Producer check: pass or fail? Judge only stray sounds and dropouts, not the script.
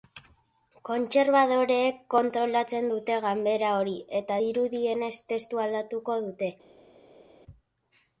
pass